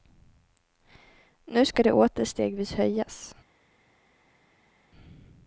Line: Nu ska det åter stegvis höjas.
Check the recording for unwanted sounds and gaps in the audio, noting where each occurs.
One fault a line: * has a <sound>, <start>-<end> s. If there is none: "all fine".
all fine